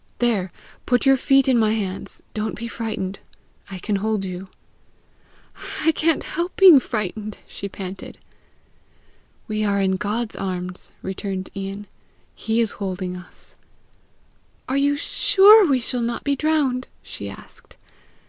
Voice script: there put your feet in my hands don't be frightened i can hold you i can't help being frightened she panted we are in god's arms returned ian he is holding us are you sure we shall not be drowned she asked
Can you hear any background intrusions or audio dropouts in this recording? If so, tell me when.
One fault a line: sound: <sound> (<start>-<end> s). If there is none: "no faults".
no faults